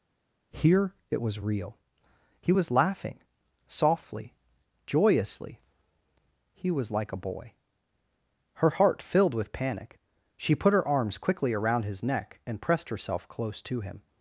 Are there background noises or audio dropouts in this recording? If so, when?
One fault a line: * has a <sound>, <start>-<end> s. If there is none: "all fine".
all fine